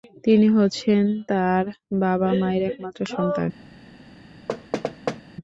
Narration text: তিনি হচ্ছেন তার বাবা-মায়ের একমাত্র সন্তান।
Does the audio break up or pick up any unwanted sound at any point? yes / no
yes